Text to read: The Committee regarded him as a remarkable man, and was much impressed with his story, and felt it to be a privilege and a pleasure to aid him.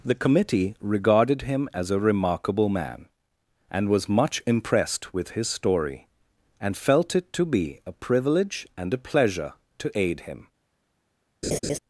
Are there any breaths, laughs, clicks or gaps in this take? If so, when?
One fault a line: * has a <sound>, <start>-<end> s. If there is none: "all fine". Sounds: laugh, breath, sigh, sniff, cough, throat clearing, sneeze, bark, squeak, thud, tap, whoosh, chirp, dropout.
* has a laugh, 11.4-11.8 s